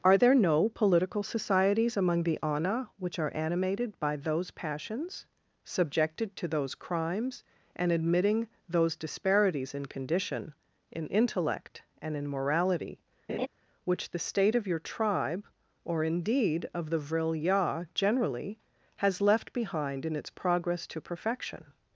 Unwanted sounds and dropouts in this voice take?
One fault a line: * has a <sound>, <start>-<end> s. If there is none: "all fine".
* has a laugh, 13.3-13.5 s